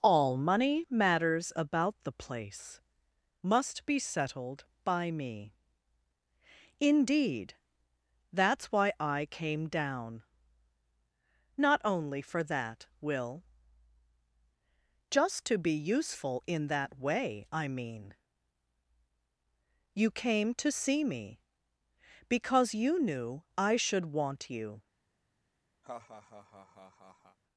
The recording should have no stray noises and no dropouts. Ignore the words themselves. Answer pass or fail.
fail